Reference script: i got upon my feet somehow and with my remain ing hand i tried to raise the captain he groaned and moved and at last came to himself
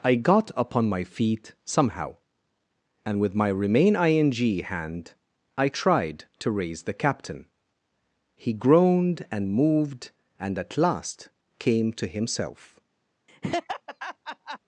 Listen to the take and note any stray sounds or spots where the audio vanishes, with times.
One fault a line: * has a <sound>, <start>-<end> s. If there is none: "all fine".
* has a laugh, 13.3-14.6 s